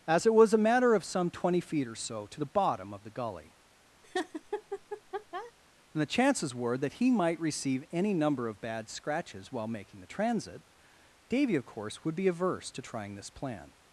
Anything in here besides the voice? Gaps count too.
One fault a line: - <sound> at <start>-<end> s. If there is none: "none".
- laugh at 4.0-5.5 s